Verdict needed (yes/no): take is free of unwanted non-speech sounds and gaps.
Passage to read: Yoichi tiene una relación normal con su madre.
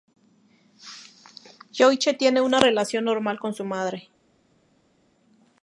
yes